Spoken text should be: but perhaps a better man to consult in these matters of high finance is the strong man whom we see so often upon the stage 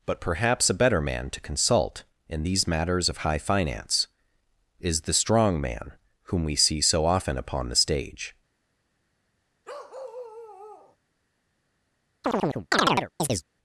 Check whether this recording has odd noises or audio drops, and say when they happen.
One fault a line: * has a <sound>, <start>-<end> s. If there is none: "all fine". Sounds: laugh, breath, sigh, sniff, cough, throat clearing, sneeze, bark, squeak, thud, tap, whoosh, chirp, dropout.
* has a bark, 9.6-11.0 s
* has a chirp, 12.2-13.4 s